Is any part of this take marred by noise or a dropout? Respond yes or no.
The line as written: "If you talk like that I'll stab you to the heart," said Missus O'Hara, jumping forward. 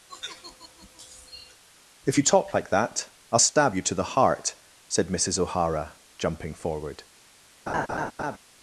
yes